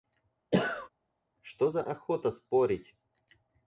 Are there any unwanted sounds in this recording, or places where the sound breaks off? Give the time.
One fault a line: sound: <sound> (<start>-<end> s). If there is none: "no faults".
sound: cough (0.5-0.9 s)